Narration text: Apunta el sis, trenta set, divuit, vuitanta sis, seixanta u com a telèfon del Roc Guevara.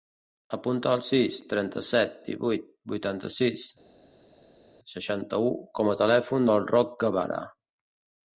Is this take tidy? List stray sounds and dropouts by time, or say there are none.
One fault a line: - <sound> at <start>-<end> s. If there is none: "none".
none